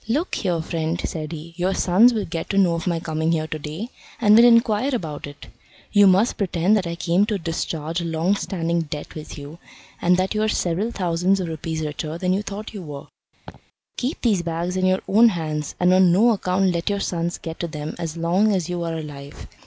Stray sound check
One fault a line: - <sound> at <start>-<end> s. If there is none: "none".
- laugh at 13.5-13.6 s